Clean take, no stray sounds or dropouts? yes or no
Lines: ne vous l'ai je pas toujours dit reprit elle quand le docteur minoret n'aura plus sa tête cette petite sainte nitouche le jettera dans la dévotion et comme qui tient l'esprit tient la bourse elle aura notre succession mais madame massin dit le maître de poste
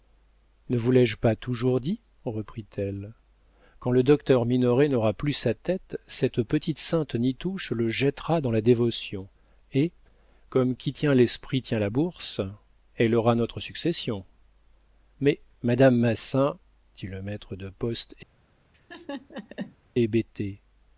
no